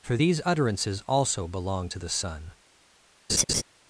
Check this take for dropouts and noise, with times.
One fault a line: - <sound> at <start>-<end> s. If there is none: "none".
- laugh at 3.3-3.6 s